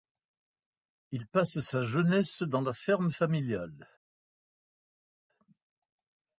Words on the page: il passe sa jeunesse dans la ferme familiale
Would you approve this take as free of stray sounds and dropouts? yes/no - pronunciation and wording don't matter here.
yes